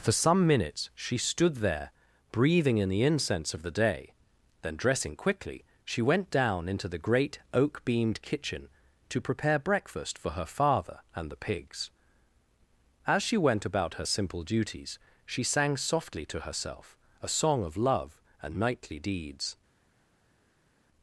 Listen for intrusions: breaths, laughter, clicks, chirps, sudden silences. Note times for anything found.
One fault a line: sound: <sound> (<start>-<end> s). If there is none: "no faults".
no faults